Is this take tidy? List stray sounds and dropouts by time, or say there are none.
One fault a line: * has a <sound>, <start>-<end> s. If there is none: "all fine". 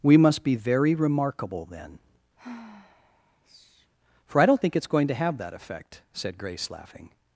* has a sigh, 2.4-3.9 s